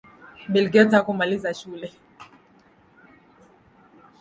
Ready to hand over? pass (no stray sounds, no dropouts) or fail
pass